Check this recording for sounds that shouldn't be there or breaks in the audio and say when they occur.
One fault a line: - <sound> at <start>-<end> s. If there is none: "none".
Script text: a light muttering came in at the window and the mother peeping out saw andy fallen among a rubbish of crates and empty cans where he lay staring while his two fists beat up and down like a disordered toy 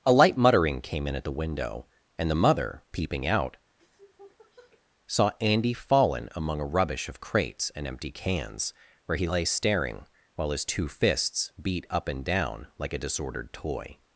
- sniff at 3.8-4.8 s